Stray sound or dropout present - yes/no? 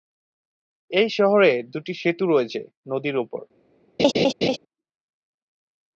yes